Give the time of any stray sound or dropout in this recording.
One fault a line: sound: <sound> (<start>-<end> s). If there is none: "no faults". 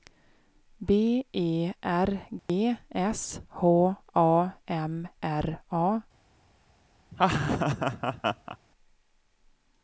sound: dropout (2.4-2.5 s)
sound: laugh (7.1-8.6 s)